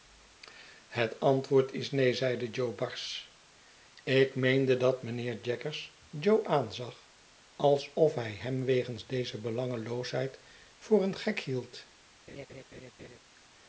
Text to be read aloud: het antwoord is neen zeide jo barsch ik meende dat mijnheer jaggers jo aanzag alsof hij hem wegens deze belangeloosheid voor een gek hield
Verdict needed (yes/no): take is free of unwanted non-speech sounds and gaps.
no